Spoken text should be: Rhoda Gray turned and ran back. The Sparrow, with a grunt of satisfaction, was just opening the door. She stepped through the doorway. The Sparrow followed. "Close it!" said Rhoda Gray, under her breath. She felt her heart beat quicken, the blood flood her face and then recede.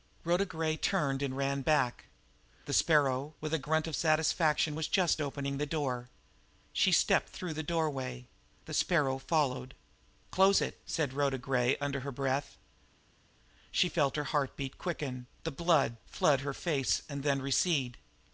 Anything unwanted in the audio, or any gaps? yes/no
no